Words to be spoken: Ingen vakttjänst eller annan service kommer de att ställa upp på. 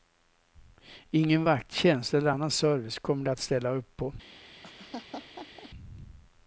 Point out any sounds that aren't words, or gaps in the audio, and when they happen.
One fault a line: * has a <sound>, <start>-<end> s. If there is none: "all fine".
* has a laugh, 4.6-5.7 s